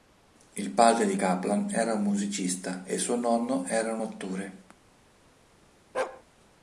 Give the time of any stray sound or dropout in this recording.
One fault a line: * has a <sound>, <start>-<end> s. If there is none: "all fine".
* has a bark, 5.9-6.2 s